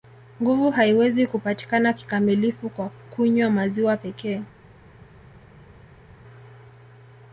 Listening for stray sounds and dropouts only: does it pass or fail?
pass